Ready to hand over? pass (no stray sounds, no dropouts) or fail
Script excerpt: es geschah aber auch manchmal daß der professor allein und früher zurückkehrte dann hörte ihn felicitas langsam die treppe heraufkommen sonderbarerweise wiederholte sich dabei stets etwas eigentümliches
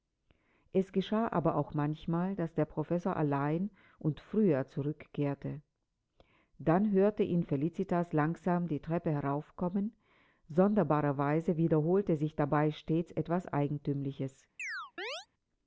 fail